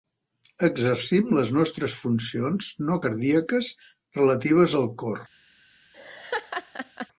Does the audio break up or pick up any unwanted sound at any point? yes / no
yes